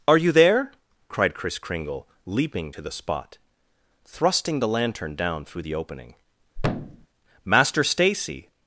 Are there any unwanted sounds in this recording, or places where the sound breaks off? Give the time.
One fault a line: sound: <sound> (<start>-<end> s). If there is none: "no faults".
sound: thud (6.6-7.1 s)